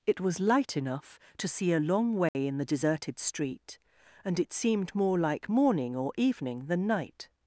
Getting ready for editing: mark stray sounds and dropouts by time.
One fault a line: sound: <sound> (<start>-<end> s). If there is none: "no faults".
sound: dropout (2.3-2.3 s)